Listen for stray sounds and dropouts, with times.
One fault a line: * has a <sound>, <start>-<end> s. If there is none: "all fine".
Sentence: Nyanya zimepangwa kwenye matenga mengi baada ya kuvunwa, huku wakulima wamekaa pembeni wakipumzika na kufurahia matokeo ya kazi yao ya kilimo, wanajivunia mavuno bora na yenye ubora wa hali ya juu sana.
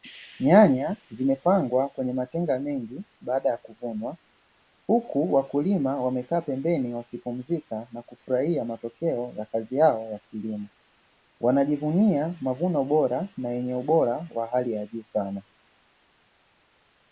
all fine